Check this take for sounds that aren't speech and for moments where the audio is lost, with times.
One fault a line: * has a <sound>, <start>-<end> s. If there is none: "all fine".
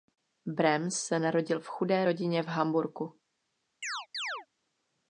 * has a chirp, 3.8-4.5 s